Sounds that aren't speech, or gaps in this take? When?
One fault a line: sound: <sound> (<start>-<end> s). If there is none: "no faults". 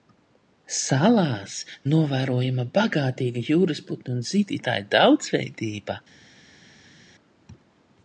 no faults